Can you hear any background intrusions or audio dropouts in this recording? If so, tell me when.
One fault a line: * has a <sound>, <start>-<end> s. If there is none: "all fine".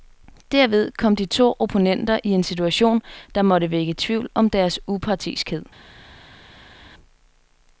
all fine